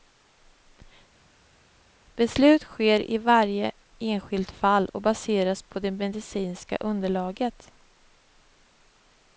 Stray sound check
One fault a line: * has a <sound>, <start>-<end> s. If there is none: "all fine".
all fine